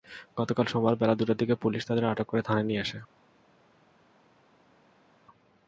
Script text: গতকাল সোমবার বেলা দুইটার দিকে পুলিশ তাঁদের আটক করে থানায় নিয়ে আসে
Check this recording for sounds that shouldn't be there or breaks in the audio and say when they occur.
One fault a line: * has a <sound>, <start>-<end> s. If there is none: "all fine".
all fine